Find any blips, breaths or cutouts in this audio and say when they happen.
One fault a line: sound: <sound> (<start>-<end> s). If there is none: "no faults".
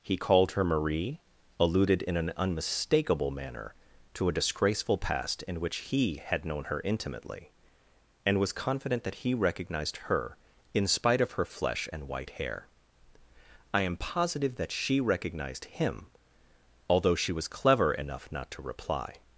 no faults